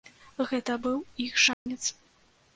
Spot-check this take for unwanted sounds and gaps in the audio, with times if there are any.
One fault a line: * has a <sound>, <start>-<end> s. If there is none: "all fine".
* has a dropout, 1.5-1.7 s